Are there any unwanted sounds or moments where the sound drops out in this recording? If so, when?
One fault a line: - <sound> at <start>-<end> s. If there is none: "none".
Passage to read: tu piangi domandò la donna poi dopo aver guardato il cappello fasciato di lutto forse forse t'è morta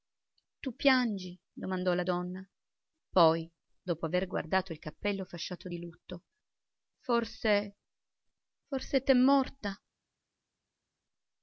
none